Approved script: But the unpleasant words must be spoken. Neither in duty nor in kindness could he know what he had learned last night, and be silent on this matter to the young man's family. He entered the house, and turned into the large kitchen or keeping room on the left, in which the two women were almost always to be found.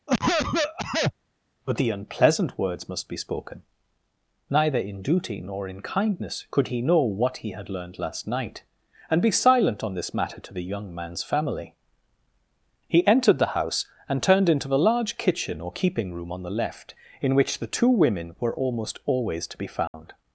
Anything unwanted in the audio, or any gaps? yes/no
yes